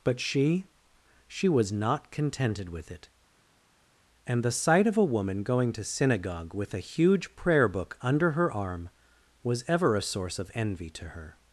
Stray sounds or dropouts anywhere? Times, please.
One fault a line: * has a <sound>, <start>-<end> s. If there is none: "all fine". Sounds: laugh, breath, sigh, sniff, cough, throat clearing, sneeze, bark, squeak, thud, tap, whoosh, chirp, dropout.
all fine